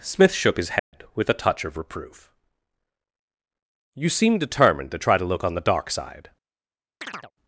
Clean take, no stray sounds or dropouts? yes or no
no